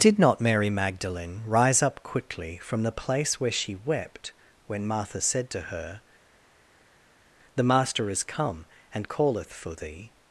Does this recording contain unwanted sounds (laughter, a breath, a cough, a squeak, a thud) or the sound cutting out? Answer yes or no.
no